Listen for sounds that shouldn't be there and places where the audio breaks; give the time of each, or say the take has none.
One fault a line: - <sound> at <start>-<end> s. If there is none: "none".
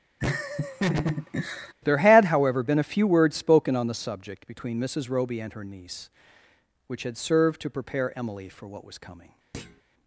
- laugh at 0.2-1.7 s
- thud at 9.5-9.8 s